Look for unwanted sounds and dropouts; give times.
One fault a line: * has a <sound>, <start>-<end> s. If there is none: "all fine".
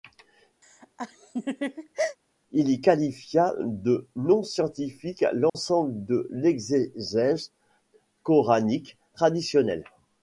* has a laugh, 0.6-2.2 s
* has a dropout, 5.5-5.5 s